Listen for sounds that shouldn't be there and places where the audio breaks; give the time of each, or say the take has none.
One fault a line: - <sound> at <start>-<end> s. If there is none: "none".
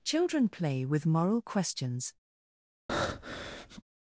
- breath at 2.9-3.8 s